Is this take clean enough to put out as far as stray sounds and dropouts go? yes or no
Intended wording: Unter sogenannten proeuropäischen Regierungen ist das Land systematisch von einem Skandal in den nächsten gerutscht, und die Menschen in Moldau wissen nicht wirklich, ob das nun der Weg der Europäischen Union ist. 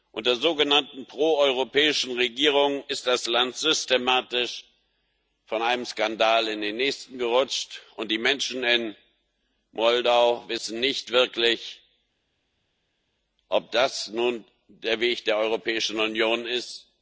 yes